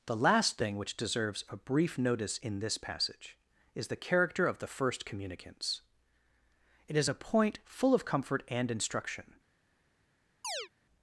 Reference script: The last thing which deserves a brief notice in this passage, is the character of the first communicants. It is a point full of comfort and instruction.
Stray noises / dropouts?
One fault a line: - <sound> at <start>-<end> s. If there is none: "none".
- chirp at 10.4-10.7 s